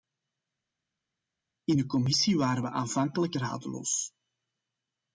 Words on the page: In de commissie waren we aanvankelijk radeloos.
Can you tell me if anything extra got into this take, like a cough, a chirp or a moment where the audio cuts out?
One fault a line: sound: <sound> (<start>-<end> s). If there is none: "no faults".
no faults